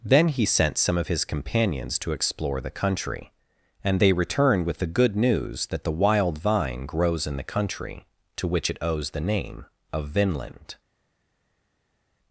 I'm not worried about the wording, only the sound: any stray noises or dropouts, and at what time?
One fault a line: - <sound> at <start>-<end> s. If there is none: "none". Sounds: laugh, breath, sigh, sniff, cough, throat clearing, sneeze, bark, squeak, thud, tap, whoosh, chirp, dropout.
none